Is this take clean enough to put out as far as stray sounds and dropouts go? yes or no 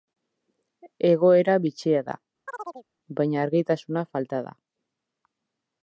no